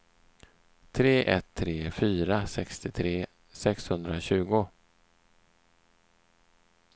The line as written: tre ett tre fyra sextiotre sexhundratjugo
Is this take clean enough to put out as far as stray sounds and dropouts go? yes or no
yes